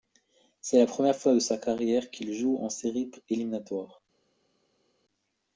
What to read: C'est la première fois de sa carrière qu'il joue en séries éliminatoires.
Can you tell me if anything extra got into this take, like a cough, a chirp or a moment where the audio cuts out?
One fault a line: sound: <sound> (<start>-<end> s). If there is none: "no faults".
no faults